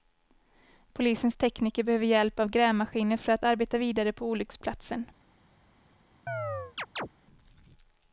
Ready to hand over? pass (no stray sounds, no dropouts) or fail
fail